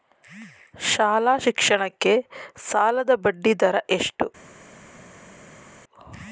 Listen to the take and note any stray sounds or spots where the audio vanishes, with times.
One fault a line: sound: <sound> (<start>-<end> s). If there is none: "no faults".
no faults